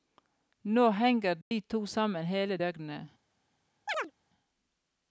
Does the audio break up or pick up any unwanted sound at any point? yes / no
yes